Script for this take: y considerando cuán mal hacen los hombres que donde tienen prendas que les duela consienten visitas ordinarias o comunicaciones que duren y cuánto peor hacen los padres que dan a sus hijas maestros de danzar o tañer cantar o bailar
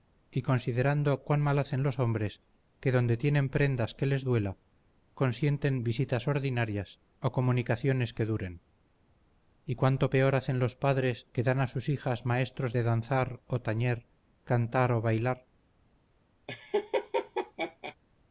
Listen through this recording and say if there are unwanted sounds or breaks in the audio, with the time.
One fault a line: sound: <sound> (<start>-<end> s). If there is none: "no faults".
sound: laugh (16.5-18.0 s)